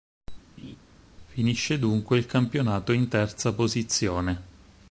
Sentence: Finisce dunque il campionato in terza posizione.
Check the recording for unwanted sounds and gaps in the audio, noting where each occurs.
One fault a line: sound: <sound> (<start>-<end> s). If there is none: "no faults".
sound: laugh (0.6-0.8 s)